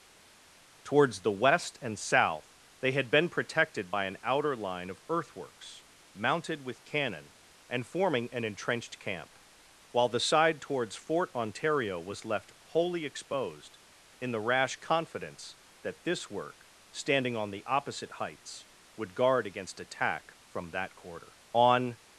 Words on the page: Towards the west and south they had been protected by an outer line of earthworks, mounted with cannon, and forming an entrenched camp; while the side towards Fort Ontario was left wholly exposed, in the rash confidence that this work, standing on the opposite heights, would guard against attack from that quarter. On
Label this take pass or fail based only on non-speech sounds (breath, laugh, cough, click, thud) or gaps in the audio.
pass